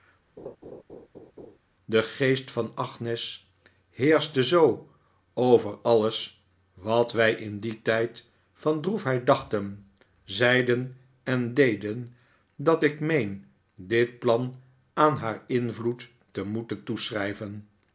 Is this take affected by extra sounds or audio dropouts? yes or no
yes